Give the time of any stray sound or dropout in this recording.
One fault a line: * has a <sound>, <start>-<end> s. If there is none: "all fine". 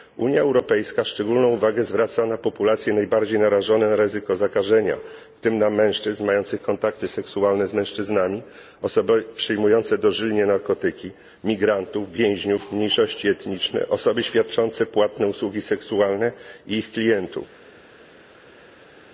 all fine